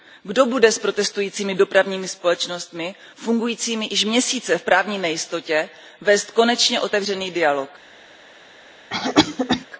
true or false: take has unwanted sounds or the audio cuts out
true